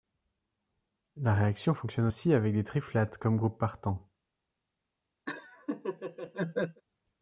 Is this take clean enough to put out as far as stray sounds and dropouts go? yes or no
no